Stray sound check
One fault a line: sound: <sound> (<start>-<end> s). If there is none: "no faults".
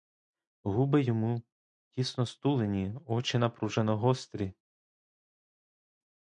no faults